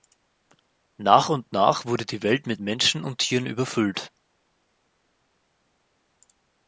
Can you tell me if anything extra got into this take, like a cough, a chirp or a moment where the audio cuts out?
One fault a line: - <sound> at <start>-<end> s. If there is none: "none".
none